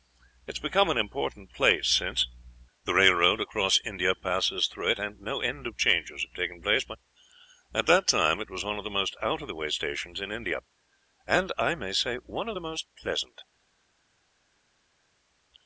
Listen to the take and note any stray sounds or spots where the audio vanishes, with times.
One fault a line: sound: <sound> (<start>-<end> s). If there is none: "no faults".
no faults